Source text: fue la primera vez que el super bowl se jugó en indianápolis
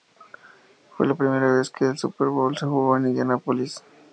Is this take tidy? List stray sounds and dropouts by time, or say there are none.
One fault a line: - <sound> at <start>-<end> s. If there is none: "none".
none